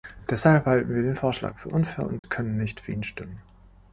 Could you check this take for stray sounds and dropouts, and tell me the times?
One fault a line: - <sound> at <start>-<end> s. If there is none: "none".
- dropout at 2.2-2.2 s